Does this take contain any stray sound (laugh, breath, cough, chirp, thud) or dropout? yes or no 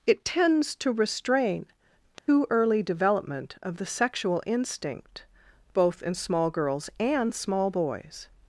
yes